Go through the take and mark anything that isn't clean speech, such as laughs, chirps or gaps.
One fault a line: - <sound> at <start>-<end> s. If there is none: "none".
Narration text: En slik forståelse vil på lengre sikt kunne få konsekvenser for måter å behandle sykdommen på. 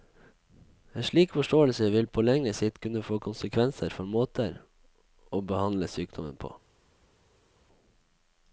none